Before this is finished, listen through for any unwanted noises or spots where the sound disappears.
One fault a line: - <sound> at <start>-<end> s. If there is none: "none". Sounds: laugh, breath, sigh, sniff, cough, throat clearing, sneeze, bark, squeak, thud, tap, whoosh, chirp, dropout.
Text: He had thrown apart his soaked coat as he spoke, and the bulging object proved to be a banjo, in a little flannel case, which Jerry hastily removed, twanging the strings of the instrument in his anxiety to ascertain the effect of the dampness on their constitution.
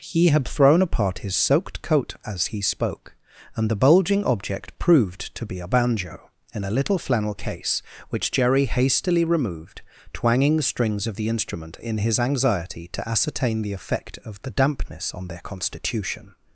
none